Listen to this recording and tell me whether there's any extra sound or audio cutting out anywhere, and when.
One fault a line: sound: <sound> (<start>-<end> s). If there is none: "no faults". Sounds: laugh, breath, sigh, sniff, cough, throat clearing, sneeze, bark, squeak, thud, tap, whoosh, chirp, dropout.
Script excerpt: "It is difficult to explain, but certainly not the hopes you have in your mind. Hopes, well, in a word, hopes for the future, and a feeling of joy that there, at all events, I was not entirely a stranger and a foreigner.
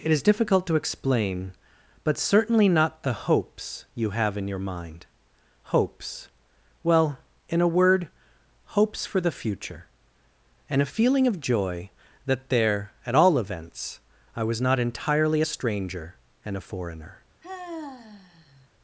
sound: sigh (17.4-18.7 s)